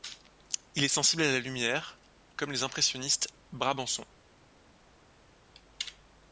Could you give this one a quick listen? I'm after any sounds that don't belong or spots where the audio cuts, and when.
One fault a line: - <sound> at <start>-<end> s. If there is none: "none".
none